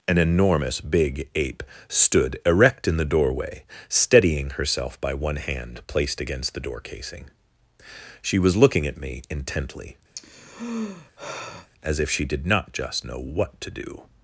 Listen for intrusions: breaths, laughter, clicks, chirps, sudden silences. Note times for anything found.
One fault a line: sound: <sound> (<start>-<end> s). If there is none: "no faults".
sound: sigh (10.1-11.7 s)